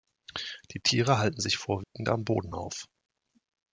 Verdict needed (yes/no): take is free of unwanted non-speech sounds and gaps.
no